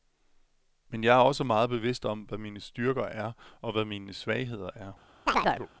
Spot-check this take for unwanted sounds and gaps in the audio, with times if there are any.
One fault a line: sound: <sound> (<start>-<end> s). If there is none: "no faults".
sound: chirp (5.3-5.7 s)